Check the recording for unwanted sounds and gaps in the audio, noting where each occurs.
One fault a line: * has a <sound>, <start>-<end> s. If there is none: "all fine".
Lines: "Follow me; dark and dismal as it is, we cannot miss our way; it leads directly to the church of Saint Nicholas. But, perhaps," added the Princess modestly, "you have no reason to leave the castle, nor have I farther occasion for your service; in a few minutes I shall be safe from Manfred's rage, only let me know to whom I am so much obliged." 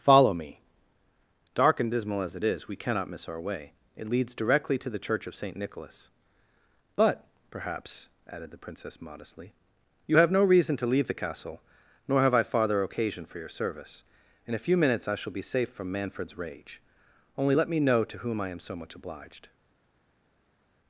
all fine